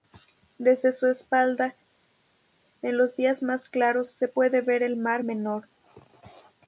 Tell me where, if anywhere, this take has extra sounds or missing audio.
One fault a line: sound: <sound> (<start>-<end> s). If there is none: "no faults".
no faults